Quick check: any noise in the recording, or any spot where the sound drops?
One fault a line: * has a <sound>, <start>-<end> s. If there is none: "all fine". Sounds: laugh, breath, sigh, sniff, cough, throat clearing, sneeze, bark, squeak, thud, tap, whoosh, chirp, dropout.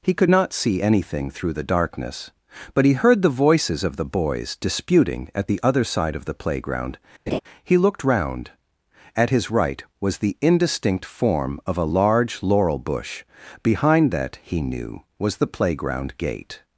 * has a laugh, 7.3-7.4 s